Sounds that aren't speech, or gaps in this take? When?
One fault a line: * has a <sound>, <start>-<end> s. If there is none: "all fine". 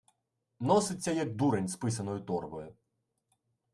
all fine